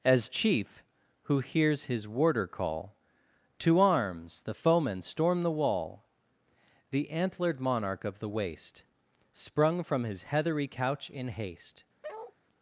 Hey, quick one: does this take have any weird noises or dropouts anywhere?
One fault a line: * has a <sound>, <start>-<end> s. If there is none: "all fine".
* has a bark, 12.0-12.4 s